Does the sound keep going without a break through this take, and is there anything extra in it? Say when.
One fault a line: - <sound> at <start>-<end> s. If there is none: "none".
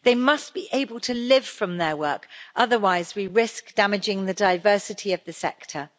none